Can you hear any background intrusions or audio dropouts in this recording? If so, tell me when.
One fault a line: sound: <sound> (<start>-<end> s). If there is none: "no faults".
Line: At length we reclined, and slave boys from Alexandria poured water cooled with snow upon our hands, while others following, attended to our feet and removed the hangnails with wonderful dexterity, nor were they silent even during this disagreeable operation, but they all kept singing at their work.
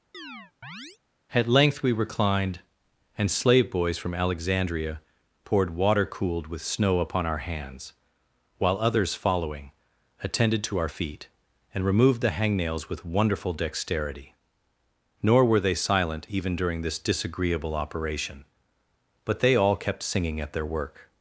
sound: chirp (0.1-1.0 s)